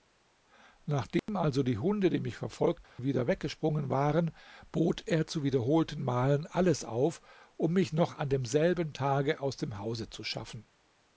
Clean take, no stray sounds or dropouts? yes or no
no